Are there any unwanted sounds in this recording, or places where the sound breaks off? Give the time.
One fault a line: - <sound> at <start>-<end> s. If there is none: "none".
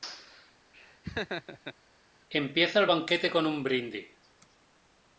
- laugh at 0.7-1.8 s